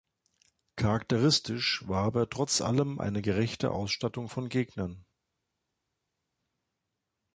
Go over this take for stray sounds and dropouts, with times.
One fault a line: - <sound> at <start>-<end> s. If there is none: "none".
none